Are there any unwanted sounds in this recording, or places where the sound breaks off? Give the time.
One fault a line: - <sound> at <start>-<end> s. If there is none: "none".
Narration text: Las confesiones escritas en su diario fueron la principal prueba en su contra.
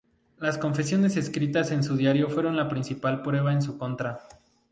none